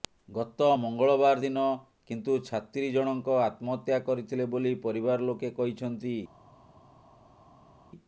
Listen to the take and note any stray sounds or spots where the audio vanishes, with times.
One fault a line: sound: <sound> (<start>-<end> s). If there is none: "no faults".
no faults